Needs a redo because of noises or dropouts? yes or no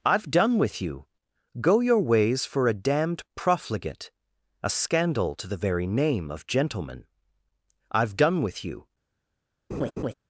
yes